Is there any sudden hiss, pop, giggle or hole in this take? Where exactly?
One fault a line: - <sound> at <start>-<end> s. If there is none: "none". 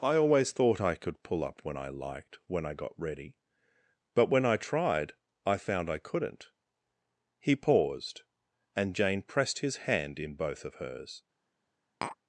- tap at 12.0-12.2 s